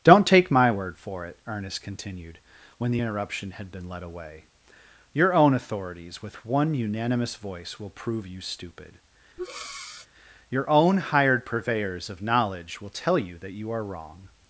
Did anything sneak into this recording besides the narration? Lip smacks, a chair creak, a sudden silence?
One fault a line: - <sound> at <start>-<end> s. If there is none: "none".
- breath at 9.4-10.1 s